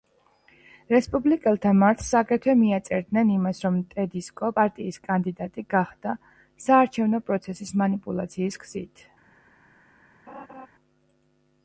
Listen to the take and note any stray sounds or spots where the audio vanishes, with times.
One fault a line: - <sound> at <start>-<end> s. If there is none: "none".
- laugh at 10.3-10.7 s